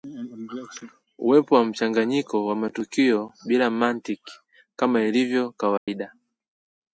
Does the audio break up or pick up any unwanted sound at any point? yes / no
yes